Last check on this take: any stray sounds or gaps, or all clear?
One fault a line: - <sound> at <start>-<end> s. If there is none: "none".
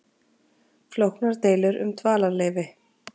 none